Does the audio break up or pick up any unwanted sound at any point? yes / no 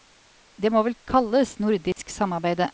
yes